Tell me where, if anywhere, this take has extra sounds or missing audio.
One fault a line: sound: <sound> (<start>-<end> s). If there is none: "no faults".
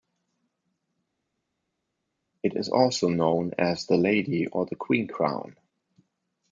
no faults